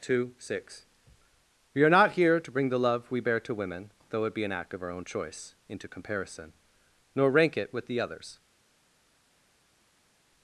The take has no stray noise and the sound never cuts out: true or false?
true